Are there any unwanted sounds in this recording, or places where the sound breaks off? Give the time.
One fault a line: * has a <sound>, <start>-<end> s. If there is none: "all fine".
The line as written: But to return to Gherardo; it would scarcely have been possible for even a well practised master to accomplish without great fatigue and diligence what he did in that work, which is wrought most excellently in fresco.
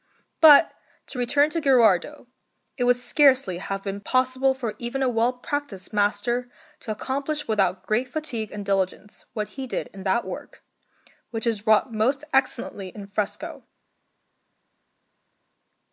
all fine